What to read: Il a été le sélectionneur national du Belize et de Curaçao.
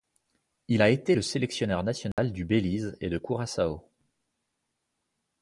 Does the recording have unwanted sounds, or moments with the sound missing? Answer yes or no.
yes